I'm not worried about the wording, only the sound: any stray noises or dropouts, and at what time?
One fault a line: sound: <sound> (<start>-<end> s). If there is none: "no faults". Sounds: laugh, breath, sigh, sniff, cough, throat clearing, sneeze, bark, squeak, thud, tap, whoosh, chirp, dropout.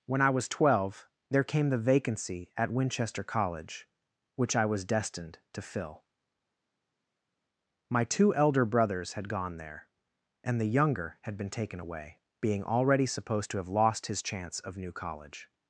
no faults